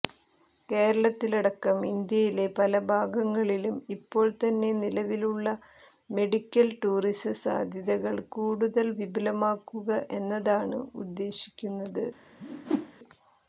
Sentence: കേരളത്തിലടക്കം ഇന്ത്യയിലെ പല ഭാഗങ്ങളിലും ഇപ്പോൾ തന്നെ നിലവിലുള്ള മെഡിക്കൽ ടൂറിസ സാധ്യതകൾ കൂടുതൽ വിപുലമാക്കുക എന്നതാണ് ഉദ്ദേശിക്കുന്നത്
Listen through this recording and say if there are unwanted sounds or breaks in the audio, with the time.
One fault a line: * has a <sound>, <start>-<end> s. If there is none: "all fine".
* has a whoosh, 12.4-12.9 s